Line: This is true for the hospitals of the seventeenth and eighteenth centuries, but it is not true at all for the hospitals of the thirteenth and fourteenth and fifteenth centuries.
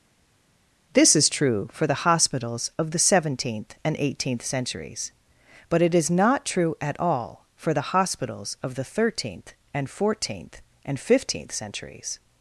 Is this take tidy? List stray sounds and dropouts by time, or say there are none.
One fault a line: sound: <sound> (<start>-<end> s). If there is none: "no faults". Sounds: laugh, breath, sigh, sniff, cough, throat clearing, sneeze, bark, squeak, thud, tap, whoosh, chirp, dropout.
no faults